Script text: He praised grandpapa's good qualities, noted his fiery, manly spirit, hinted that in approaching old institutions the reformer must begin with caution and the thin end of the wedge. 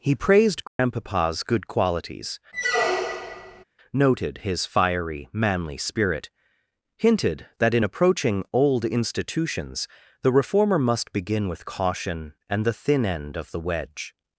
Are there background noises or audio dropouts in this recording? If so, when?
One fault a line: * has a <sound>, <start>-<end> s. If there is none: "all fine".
* has a dropout, 0.7-0.8 s
* has a squeak, 2.5-3.6 s